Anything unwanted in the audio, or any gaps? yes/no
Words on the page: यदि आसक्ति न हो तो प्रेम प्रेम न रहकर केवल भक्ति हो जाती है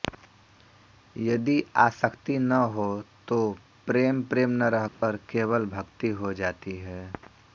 yes